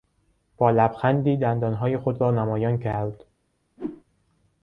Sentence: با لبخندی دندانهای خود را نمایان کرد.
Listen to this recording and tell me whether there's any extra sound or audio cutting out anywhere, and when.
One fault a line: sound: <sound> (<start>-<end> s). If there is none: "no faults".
sound: whoosh (3.8-4.0 s)